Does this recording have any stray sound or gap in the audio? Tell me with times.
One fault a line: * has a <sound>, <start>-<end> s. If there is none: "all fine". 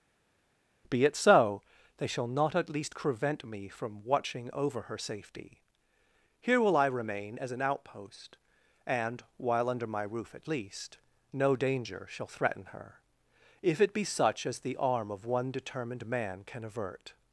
all fine